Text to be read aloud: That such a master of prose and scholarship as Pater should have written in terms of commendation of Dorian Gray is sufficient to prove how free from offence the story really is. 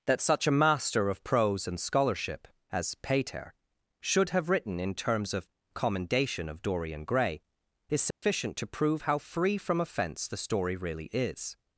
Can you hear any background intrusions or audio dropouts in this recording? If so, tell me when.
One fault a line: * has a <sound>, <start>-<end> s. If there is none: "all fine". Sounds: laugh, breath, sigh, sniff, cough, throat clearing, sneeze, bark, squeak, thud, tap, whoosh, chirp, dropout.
* has a dropout, 8.1-8.2 s